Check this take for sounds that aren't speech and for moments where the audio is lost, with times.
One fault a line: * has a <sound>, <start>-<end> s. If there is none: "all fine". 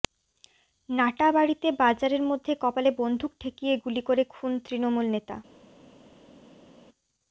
all fine